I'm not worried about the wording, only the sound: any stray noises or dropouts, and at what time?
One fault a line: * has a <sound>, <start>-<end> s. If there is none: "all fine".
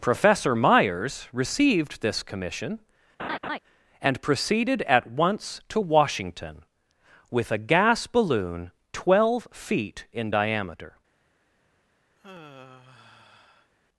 * has a laugh, 3.2-3.6 s
* has a sigh, 12.2-13.7 s